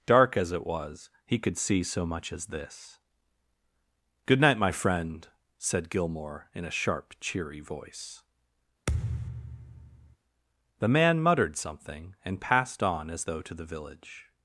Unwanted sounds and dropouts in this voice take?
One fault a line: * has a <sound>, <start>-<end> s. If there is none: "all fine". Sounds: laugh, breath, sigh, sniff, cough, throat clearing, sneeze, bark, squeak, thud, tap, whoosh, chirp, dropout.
* has a thud, 8.9-10.2 s